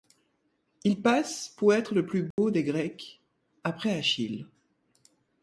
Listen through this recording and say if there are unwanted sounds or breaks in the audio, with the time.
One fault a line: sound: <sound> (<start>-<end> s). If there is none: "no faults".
sound: dropout (2.3-2.4 s)